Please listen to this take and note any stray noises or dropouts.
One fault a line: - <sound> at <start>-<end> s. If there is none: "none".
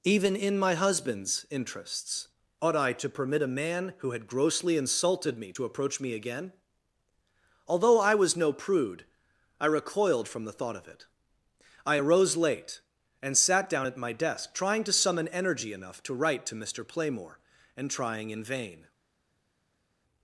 none